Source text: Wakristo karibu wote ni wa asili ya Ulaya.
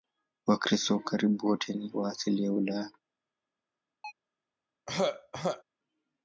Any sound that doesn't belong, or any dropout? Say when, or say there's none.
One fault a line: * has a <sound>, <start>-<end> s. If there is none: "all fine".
* has a chirp, 4.0-4.1 s
* has a throat clearing, 4.9-5.6 s